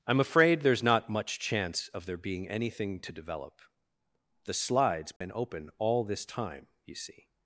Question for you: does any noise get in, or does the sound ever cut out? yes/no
yes